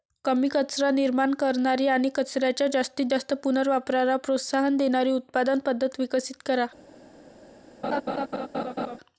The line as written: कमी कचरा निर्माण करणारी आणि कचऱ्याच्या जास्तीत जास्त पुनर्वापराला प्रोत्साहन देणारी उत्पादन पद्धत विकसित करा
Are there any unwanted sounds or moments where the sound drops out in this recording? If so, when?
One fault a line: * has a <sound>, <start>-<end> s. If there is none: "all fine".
* has a laugh, 7.8-9.0 s